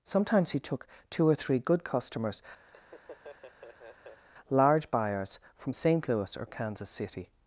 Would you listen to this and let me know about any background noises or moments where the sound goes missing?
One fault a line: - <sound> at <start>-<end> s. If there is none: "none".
- laugh at 2.7-4.2 s